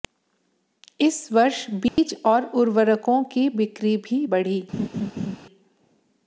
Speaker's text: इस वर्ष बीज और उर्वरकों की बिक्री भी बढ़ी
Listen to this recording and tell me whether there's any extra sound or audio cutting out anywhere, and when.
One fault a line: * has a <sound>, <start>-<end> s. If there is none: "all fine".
* has a dropout, 1.9-2.0 s
* has a laugh, 4.7-5.4 s